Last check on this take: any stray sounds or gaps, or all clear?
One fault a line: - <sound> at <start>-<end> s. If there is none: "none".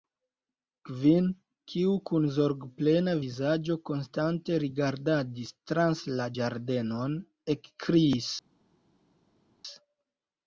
none